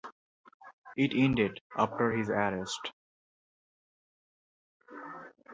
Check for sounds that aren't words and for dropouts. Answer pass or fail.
pass